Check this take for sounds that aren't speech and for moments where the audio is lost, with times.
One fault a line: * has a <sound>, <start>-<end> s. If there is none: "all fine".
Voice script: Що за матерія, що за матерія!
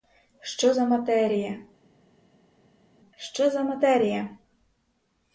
all fine